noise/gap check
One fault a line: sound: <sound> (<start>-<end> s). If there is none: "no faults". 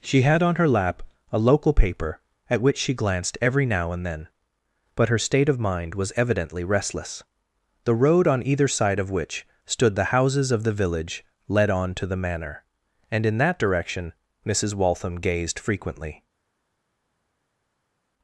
no faults